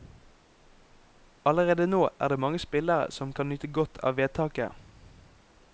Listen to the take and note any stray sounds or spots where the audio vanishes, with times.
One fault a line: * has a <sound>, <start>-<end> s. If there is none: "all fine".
all fine